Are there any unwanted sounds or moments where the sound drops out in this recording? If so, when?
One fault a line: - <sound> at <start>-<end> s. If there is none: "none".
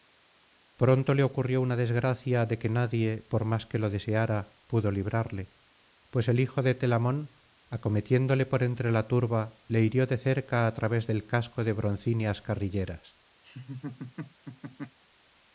- laugh at 13.4-15.0 s